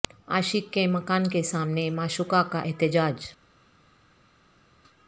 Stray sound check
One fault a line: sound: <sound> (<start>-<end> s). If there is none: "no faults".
no faults